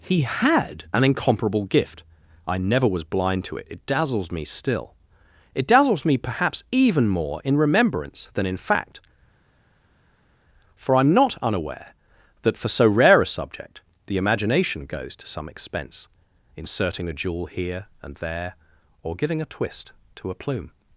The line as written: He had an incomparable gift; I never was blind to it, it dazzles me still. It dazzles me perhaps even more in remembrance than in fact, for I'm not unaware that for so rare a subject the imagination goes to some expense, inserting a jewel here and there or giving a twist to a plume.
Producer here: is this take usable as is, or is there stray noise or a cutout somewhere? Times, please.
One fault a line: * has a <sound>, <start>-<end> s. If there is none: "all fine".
all fine